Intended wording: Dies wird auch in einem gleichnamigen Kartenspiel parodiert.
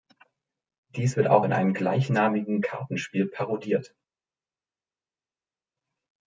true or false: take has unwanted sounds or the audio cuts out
false